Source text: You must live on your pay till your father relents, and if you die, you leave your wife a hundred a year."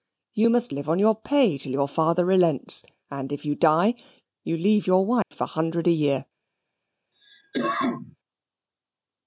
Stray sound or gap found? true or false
true